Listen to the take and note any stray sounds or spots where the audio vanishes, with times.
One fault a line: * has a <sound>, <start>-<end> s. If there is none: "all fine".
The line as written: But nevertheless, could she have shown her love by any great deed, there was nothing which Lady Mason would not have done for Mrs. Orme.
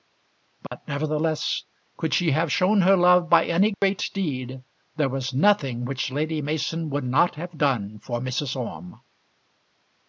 * has a dropout, 0.7-0.7 s
* has a dropout, 3.7-3.8 s